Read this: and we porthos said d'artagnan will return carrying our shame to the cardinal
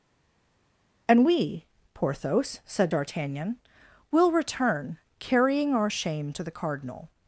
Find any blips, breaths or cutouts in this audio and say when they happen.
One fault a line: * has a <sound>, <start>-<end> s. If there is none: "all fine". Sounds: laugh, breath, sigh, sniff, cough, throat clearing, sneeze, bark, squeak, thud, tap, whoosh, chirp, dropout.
all fine